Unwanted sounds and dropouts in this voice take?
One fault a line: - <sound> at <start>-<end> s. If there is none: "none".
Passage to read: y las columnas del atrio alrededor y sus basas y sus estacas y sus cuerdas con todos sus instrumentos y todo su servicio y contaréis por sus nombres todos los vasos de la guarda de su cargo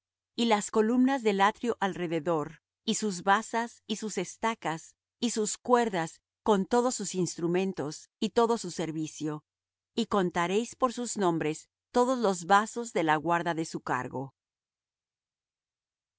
none